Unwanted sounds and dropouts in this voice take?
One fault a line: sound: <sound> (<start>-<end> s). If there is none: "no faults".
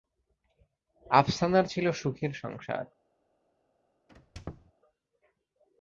sound: squeak (4.1-4.7 s)